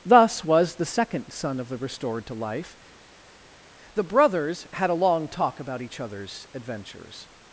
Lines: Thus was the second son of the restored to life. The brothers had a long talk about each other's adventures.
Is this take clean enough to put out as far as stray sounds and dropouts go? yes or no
yes